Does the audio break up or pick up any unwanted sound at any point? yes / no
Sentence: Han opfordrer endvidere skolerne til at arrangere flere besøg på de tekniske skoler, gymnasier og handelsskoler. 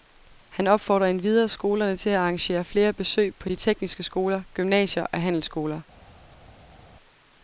no